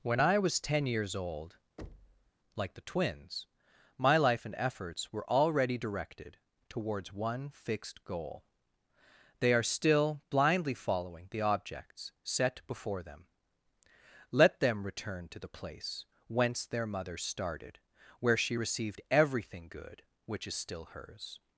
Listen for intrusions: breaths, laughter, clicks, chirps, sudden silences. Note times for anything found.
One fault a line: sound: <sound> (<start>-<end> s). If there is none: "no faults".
sound: thud (1.8-2.3 s)